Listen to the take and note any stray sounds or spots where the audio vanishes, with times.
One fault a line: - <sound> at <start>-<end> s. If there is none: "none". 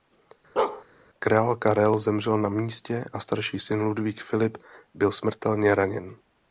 - bark at 0.6-0.8 s